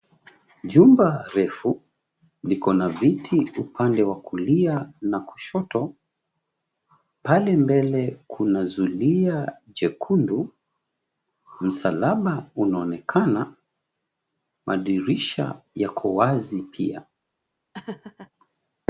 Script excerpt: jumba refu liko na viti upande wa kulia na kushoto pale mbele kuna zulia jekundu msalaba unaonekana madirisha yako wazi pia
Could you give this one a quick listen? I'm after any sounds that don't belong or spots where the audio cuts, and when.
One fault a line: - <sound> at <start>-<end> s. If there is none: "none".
- laugh at 17.7-18.3 s